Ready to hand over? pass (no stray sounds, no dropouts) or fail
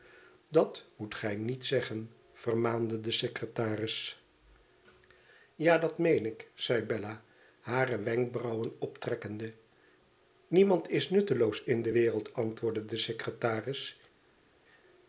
pass